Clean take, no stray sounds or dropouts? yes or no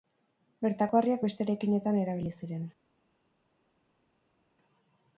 yes